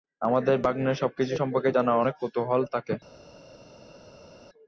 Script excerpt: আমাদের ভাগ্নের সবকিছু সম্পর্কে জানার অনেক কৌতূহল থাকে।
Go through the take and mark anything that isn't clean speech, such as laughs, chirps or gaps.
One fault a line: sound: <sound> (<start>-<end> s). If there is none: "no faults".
no faults